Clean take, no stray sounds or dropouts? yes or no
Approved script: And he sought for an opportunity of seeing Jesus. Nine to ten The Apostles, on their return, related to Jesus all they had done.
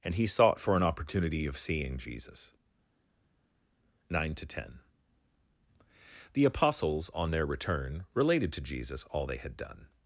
yes